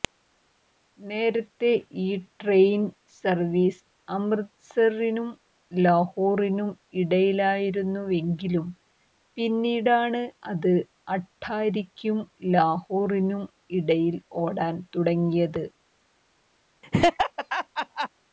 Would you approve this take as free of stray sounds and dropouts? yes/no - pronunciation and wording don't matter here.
no